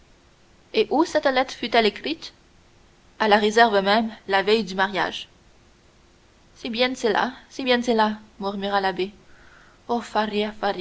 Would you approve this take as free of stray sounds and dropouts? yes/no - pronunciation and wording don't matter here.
yes